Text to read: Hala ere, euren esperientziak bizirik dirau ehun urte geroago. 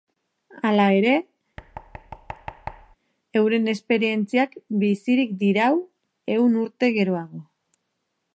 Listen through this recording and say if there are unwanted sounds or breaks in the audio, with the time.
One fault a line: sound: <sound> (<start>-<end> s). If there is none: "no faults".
sound: thud (1.6-3.0 s)